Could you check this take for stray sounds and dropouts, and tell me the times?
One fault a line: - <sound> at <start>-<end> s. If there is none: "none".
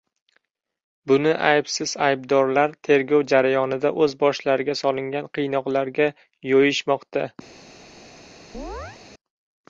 - chirp at 8.5-9.0 s